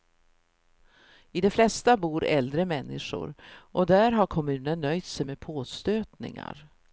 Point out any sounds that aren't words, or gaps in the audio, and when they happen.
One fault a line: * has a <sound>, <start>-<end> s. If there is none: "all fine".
all fine